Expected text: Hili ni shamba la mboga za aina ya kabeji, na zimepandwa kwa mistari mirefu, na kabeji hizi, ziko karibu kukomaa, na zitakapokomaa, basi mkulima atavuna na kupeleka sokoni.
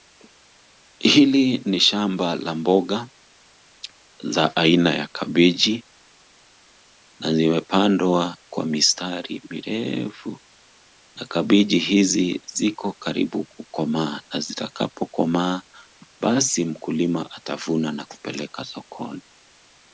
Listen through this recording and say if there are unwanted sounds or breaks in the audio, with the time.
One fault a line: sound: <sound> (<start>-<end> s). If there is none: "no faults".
no faults